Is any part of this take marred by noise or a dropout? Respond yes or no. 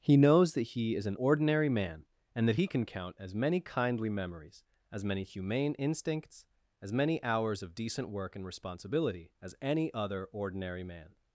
no